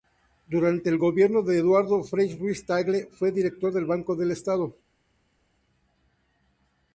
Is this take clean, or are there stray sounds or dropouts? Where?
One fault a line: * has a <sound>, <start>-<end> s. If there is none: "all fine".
all fine